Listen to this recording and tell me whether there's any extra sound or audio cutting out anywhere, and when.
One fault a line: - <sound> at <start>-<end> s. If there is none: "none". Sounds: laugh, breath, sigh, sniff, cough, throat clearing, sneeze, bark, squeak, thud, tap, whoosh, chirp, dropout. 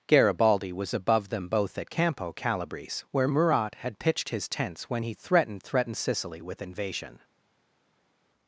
none